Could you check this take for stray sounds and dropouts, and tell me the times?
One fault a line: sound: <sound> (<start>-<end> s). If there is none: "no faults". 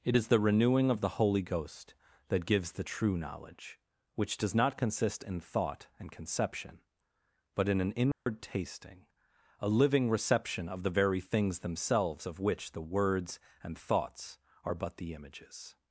sound: dropout (8.1-8.3 s)